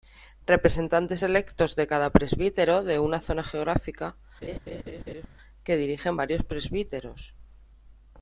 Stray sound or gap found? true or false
true